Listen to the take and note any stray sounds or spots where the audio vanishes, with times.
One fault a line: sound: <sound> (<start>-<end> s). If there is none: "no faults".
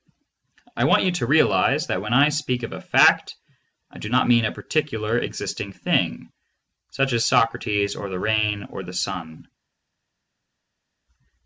no faults